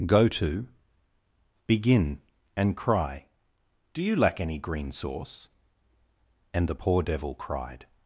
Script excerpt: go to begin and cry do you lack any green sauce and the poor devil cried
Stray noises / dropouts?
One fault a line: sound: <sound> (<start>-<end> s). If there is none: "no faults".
no faults